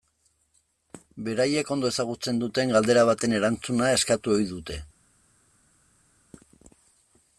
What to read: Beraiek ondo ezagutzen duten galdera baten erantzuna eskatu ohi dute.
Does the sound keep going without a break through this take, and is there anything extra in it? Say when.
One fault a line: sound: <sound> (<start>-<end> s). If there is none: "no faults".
no faults